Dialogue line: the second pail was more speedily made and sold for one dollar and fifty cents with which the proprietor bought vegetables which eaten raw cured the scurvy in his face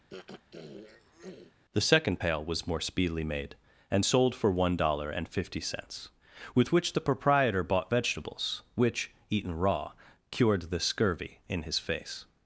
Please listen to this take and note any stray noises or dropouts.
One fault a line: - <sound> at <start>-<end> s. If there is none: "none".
- throat clearing at 0.1-1.5 s